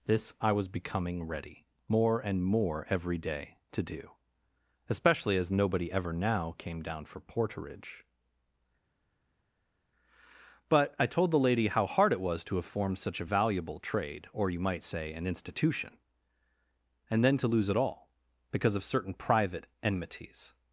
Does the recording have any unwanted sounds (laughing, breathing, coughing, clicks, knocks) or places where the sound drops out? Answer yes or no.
no